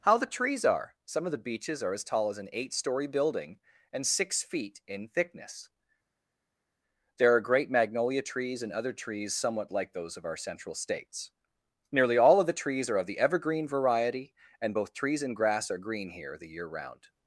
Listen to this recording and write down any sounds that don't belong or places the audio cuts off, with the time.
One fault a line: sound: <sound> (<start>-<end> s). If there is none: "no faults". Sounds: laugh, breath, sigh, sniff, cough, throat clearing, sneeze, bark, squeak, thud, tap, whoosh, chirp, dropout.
no faults